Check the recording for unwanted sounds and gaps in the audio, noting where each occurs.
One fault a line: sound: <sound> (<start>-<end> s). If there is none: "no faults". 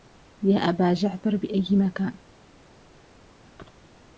no faults